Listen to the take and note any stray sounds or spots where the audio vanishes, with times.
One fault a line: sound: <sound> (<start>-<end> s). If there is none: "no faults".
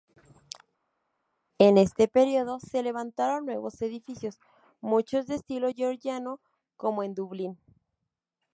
no faults